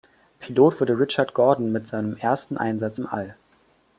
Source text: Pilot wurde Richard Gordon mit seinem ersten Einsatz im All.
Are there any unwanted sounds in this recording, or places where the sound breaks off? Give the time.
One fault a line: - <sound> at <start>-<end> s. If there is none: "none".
none